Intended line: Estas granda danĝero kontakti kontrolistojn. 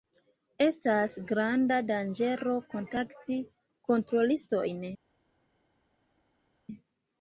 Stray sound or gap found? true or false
false